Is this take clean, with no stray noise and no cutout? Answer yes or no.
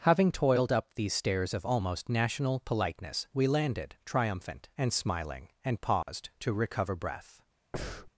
no